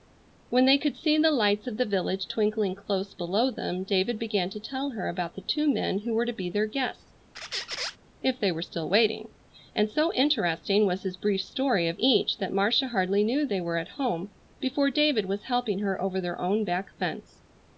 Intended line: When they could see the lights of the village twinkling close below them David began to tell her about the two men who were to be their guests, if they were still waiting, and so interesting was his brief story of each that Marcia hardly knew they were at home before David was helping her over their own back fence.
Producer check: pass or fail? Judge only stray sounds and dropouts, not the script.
fail